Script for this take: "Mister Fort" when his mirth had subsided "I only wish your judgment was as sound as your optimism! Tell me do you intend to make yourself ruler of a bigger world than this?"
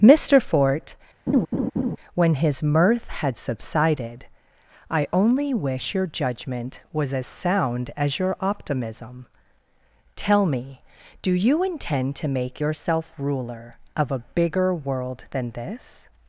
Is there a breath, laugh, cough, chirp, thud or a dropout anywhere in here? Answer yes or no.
yes